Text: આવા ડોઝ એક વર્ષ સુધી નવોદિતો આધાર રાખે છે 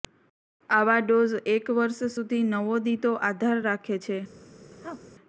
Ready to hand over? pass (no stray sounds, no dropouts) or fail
fail